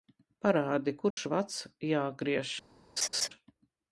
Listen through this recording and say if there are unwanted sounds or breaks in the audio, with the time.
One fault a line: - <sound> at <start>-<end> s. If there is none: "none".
- dropout at 1.1-1.2 s
- laugh at 3.0-3.3 s